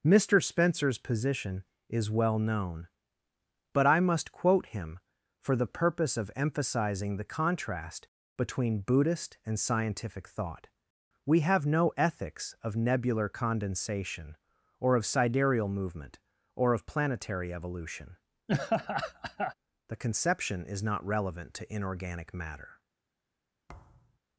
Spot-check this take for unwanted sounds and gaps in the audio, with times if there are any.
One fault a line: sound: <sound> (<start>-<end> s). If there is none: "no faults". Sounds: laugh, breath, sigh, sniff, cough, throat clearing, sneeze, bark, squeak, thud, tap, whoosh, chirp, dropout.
sound: laugh (18.5-19.5 s)
sound: thud (23.7-24.2 s)